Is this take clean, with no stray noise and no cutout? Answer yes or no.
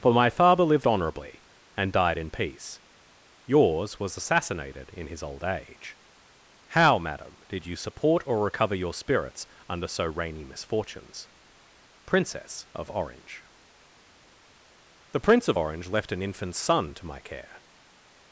yes